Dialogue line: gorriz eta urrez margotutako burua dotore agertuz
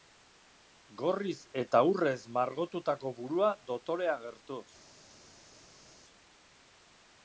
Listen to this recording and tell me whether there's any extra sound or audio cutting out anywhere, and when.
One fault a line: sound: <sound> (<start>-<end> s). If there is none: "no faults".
no faults